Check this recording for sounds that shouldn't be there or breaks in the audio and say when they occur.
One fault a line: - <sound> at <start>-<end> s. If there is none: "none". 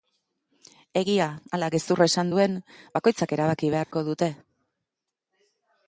- dropout at 3.8-3.9 s